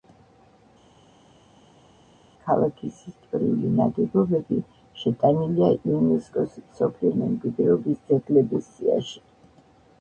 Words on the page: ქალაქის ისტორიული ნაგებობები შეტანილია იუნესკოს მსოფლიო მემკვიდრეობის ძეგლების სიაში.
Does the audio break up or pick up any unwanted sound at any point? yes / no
no